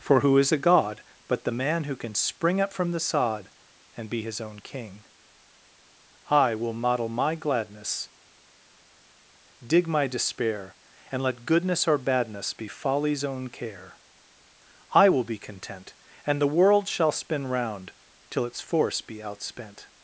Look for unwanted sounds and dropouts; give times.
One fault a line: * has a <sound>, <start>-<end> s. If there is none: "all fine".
all fine